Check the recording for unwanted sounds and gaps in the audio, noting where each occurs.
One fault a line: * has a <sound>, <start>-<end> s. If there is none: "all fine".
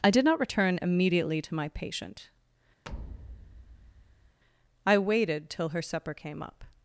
* has a thud, 2.8-4.4 s